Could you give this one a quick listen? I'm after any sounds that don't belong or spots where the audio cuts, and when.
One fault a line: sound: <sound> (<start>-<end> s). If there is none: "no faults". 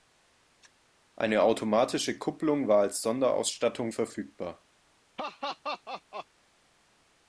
sound: laugh (5.2-6.3 s)